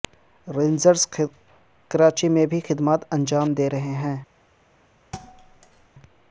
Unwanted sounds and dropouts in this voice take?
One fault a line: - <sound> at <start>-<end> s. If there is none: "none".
- thud at 5.1-5.9 s